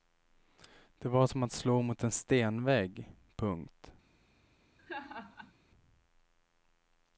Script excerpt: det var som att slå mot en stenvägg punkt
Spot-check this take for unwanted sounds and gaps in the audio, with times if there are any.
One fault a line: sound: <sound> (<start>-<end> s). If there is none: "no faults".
sound: laugh (4.8-5.5 s)